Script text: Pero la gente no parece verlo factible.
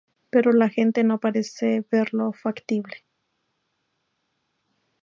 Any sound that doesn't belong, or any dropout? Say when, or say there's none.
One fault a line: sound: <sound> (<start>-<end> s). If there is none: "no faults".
no faults